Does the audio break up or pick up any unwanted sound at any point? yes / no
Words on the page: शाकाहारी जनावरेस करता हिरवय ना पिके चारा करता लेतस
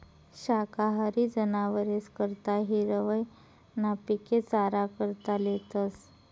no